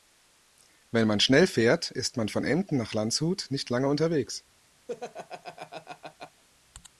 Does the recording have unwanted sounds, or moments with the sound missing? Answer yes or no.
yes